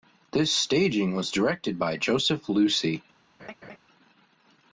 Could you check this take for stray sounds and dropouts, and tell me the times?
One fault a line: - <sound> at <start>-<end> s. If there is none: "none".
- laugh at 3.4-3.8 s